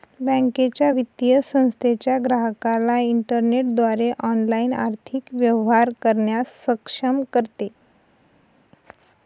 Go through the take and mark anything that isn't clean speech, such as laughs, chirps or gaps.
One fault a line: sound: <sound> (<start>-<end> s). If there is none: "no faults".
no faults